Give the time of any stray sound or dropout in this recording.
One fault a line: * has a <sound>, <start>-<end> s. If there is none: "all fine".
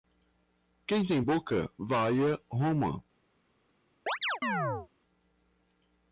* has a chirp, 4.1-4.9 s